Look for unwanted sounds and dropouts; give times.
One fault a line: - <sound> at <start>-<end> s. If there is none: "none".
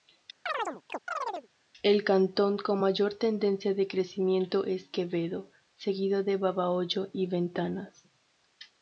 - chirp at 0.5-1.5 s